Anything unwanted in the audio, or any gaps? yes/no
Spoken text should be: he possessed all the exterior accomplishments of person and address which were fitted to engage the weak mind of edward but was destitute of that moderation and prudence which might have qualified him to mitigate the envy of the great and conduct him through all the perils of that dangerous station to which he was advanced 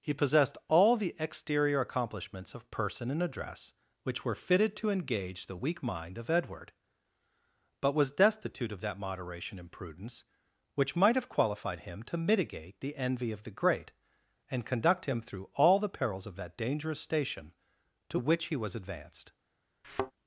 yes